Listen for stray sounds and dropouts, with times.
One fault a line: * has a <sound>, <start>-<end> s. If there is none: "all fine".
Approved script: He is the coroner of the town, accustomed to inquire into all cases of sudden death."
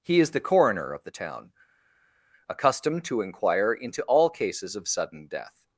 all fine